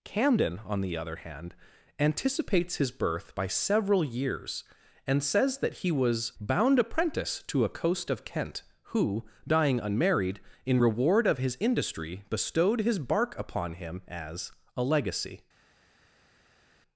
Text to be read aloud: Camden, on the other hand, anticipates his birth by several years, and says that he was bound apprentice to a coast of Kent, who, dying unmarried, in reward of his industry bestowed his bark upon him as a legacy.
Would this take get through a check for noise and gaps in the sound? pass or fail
pass